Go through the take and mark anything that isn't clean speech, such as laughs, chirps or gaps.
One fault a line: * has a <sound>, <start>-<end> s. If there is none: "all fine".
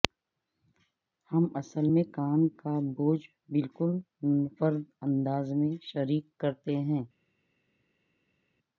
all fine